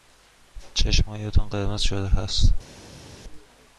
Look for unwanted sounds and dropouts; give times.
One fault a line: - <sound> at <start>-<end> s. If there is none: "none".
none